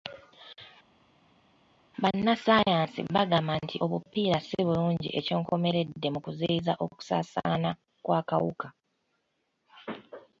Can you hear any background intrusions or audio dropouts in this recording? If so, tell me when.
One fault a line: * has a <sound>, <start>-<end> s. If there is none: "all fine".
all fine